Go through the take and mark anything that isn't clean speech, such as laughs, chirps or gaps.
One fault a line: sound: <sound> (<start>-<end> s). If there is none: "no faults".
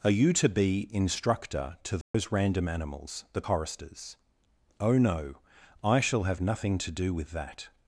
sound: dropout (2.0-2.1 s)